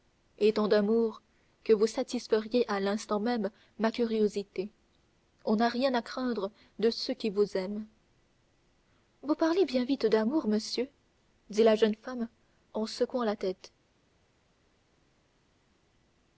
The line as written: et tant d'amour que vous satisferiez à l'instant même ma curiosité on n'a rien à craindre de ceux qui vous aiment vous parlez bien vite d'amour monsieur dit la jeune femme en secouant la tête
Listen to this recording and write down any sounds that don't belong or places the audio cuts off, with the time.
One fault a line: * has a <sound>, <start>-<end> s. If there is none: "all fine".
all fine